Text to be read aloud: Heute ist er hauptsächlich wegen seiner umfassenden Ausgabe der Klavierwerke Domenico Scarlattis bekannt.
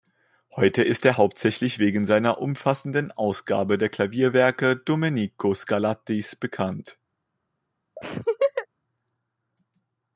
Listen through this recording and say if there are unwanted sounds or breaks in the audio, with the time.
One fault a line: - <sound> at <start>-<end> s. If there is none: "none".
- laugh at 8.0-8.7 s